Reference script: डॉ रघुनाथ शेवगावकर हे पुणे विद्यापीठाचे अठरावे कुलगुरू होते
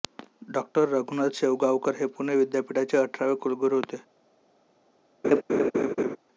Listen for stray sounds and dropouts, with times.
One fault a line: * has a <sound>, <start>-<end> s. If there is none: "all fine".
* has a laugh, 5.2-6.2 s